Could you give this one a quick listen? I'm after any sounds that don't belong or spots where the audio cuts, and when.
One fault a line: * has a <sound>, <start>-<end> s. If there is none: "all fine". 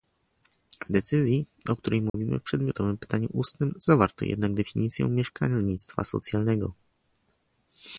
* has a dropout, 2.1-2.1 s